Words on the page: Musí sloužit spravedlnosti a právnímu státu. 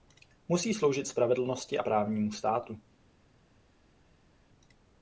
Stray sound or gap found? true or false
false